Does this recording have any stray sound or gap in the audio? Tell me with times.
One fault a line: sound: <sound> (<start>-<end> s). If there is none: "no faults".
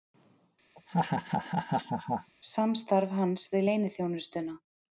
sound: laugh (0.8-2.3 s)